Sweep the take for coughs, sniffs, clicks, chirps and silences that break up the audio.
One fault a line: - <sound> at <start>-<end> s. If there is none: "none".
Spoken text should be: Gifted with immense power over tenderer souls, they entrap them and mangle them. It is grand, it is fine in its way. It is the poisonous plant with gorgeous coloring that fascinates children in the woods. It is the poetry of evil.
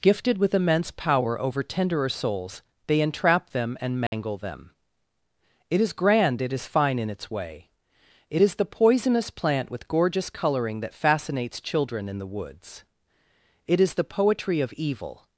- dropout at 4.1-4.1 s